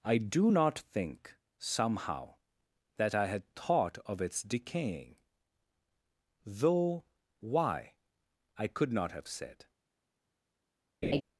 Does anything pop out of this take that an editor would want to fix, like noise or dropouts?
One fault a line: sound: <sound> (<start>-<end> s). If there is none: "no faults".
sound: laugh (11.0-11.2 s)